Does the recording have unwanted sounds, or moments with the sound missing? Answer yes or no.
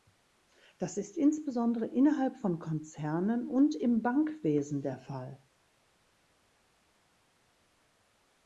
no